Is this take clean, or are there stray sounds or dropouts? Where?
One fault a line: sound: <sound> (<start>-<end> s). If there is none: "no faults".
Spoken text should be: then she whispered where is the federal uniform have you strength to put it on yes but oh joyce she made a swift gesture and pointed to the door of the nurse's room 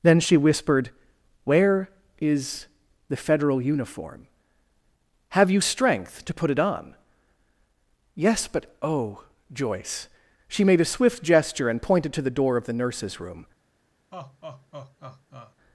sound: laugh (14.1-15.5 s)